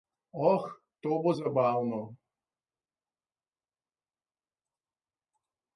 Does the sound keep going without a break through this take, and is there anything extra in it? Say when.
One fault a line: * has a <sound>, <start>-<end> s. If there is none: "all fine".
all fine